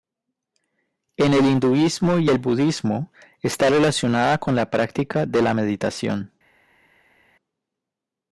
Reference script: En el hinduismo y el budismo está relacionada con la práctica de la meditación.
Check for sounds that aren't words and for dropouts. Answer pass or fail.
pass